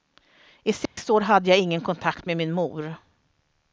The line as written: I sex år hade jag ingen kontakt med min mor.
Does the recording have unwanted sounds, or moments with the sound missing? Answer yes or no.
yes